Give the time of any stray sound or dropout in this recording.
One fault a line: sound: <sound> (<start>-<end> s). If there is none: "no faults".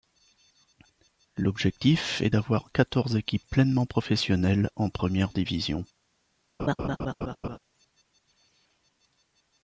sound: laugh (6.6-7.6 s)